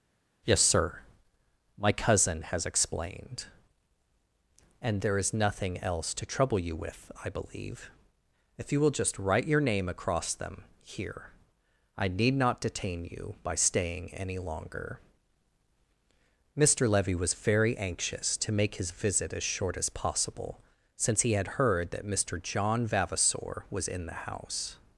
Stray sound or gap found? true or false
false